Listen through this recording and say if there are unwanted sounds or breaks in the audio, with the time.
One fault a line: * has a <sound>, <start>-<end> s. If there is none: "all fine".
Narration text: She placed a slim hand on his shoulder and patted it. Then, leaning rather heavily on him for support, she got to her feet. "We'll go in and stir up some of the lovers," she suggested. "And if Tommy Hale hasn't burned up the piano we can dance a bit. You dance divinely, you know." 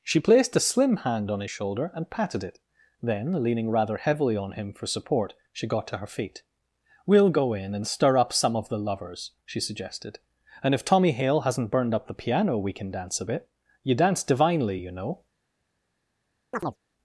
* has a chirp, 16.5-16.8 s